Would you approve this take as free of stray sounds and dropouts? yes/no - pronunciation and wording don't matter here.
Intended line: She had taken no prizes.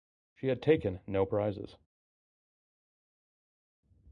yes